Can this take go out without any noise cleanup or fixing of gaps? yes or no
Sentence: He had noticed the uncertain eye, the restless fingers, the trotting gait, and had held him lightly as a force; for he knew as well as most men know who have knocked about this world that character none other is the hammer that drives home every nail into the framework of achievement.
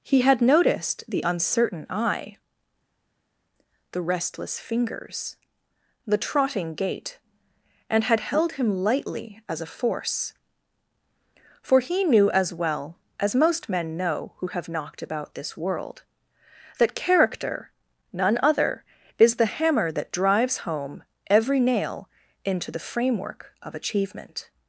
yes